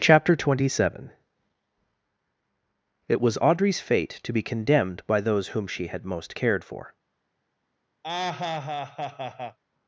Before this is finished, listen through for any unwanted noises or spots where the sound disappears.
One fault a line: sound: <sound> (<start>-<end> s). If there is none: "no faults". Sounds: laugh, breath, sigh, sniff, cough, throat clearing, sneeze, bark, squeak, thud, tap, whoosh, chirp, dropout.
sound: laugh (8.0-9.6 s)